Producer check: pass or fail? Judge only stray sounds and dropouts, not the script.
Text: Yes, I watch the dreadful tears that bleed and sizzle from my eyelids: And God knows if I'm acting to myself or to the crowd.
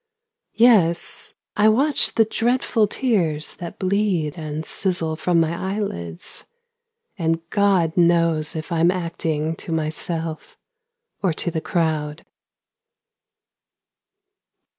pass